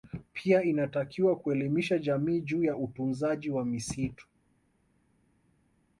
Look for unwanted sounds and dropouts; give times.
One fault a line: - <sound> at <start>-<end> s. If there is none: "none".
none